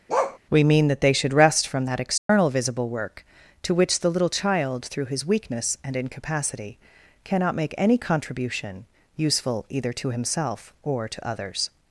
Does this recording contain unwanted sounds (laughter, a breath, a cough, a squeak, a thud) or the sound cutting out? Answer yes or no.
yes